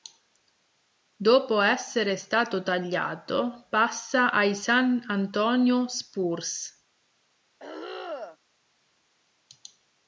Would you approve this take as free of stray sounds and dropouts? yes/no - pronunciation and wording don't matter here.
no